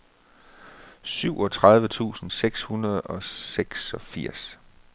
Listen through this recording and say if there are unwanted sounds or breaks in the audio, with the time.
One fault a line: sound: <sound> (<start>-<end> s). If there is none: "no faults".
no faults